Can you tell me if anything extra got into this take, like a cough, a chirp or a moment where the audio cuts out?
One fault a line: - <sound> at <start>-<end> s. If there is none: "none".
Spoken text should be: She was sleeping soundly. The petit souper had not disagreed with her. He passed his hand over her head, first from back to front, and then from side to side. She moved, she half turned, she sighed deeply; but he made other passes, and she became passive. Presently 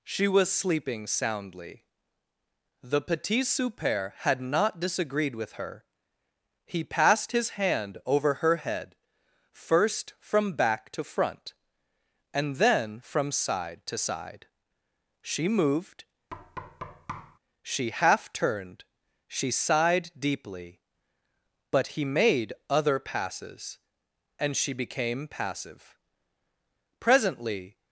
- thud at 16.3-17.4 s